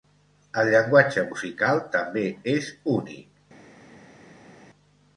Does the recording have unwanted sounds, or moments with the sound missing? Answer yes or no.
no